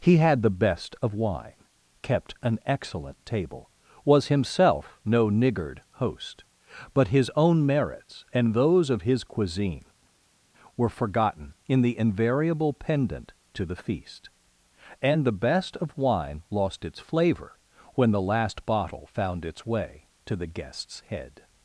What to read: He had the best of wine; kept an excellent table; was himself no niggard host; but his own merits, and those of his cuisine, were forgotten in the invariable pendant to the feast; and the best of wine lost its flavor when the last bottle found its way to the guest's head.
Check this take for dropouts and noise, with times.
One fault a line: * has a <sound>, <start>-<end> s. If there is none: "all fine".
all fine